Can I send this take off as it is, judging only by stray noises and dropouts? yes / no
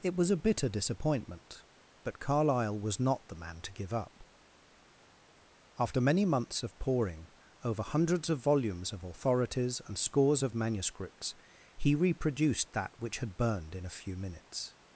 yes